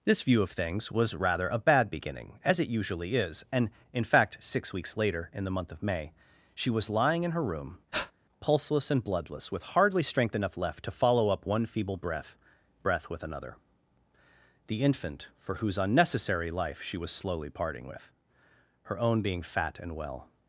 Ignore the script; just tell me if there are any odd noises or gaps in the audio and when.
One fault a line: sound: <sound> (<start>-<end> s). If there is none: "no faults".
sound: breath (7.9-8.1 s)